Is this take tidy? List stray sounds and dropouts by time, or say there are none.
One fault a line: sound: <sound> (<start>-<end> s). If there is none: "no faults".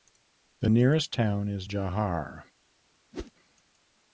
sound: whoosh (3.1-3.3 s)